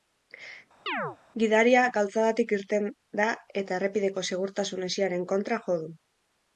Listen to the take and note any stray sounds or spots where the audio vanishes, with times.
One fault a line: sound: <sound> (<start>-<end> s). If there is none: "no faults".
sound: chirp (0.9-1.2 s)